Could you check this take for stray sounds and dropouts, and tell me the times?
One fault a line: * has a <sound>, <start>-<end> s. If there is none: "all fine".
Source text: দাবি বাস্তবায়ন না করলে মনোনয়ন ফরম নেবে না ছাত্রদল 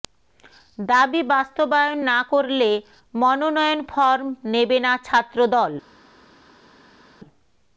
all fine